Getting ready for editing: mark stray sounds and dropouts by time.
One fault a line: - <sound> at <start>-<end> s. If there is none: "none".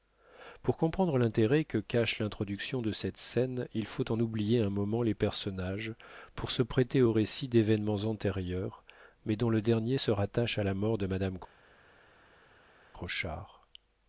none